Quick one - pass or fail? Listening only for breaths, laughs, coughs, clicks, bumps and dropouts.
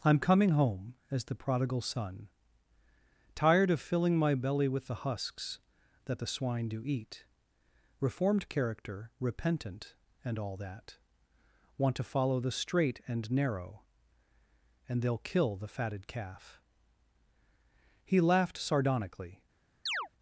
fail